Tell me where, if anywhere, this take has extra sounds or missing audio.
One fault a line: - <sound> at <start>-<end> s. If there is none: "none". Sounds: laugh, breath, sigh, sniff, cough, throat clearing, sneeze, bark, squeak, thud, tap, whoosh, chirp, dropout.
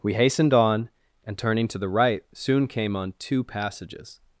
none